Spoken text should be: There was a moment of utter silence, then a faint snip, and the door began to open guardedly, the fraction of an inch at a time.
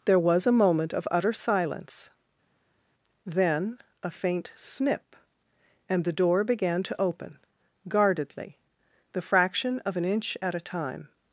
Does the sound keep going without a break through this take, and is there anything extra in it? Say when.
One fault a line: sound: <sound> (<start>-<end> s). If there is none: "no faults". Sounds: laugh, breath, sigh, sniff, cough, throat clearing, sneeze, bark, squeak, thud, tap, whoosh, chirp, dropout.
no faults